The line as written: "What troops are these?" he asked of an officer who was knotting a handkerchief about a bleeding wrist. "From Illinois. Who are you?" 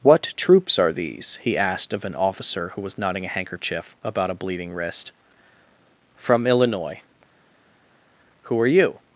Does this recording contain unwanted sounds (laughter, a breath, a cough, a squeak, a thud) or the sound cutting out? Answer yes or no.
no